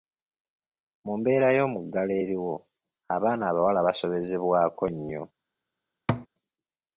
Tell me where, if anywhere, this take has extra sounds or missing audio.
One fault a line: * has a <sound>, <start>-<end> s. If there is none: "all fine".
* has a thud, 6.1-6.3 s